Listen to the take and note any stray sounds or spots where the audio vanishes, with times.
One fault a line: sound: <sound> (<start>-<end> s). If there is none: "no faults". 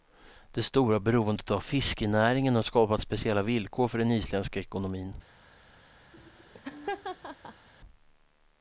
sound: laugh (6.1-7.7 s)